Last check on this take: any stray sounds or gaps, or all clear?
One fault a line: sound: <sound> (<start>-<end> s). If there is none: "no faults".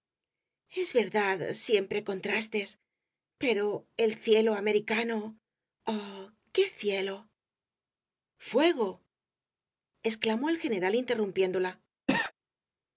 sound: cough (12.1-12.3 s)